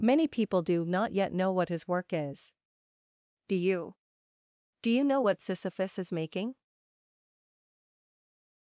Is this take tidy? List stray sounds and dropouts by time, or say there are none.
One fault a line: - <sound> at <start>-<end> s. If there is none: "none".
none